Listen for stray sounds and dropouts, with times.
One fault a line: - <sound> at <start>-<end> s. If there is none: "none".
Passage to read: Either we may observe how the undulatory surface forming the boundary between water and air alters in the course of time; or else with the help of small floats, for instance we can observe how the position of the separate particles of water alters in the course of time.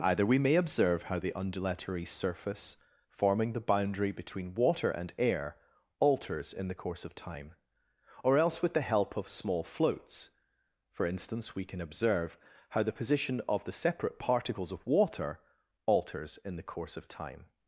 none